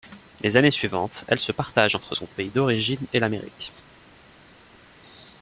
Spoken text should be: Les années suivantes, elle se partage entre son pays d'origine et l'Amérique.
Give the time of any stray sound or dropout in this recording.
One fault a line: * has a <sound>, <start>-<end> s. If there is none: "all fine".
all fine